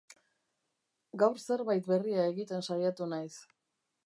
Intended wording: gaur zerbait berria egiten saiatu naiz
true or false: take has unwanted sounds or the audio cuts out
false